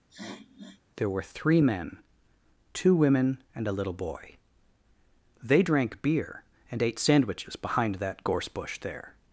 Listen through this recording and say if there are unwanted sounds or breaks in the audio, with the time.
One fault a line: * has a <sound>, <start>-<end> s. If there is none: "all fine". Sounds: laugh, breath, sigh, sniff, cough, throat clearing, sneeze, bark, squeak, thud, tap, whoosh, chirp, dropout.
* has a sniff, 0.1-0.8 s